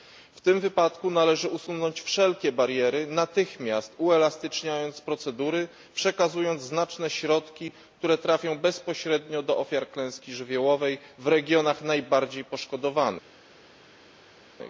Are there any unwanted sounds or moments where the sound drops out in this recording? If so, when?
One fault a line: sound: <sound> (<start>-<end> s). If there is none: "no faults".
no faults